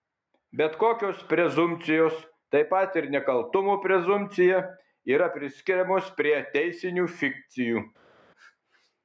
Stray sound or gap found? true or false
false